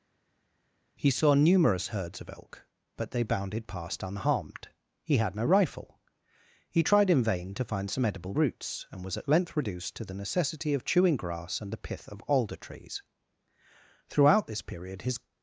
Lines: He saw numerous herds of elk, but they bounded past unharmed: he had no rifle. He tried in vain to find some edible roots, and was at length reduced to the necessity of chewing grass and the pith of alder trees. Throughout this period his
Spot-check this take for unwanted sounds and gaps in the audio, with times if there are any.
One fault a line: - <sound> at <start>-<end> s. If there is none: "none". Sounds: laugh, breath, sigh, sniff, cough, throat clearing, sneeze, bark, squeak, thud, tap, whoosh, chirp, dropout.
none